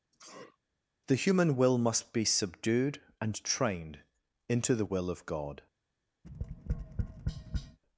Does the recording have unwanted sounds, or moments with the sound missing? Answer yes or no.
yes